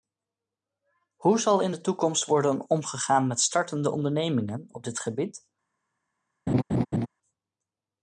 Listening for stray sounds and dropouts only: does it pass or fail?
fail